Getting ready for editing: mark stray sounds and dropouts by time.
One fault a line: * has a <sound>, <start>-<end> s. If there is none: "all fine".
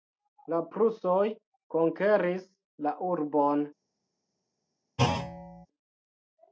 * has a thud, 5.0-5.7 s